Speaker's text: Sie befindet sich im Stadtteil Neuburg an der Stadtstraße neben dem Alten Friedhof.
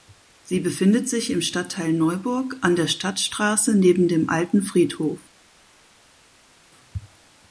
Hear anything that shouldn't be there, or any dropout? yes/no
no